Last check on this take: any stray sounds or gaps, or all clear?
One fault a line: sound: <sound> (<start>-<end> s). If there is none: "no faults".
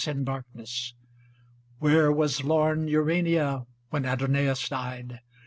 no faults